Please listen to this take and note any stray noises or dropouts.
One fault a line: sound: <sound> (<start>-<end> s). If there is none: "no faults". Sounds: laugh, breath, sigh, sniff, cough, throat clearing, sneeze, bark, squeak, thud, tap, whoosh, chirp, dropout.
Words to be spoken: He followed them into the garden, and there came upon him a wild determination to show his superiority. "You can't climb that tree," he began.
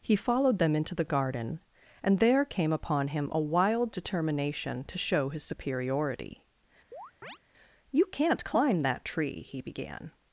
sound: chirp (6.9-7.4 s)